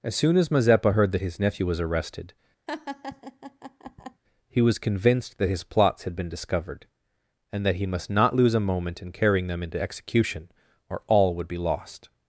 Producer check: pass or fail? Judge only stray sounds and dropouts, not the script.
fail